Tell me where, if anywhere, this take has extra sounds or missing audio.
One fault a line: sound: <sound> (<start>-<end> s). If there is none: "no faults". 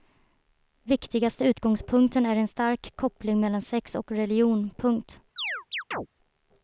sound: chirp (5.4-6.1 s)